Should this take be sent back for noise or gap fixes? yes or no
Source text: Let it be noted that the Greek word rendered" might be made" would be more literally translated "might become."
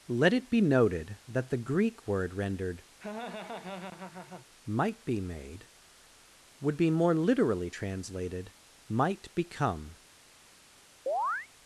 yes